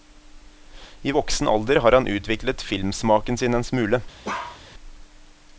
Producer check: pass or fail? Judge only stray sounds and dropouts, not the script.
fail